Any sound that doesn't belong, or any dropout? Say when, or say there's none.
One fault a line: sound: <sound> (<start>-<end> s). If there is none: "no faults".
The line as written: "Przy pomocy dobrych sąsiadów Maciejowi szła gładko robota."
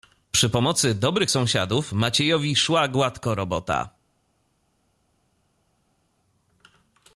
no faults